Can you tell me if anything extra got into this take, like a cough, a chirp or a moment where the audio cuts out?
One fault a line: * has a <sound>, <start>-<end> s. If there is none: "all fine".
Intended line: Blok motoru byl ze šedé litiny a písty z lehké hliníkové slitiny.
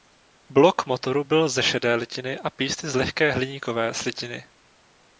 all fine